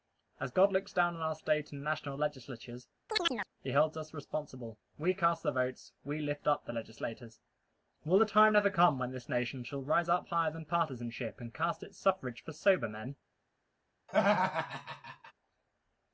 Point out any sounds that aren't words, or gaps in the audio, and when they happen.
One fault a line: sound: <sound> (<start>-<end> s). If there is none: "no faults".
sound: chirp (3.1-3.5 s)
sound: laugh (14.1-15.3 s)